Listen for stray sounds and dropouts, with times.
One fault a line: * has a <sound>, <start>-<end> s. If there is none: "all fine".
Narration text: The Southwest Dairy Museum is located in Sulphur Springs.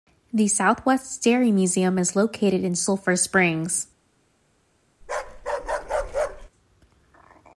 * has a bark, 5.0-6.5 s